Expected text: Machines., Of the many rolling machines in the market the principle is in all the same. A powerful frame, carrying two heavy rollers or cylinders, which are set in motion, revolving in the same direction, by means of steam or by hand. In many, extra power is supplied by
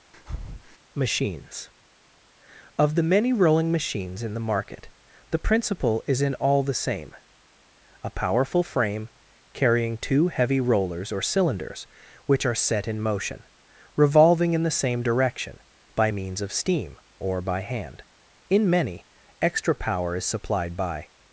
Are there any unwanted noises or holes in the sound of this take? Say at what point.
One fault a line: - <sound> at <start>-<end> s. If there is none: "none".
- breath at 0.1-0.8 s